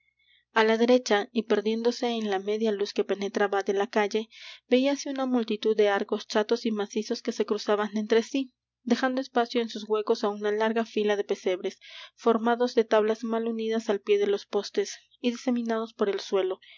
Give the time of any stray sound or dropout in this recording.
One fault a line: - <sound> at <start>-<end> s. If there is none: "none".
none